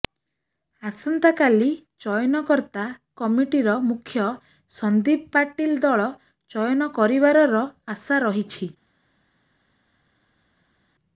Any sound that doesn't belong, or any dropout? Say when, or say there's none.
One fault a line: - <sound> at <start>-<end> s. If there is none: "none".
none